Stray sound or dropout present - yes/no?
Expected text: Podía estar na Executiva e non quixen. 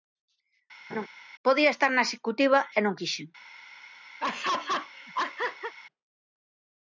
yes